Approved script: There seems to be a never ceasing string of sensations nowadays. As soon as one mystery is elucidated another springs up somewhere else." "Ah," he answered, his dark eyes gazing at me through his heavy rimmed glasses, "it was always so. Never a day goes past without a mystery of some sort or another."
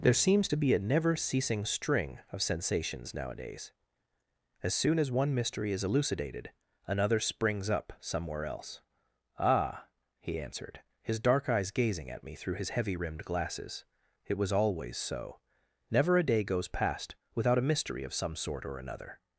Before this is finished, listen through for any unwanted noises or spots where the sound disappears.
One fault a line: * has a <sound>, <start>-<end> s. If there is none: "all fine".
all fine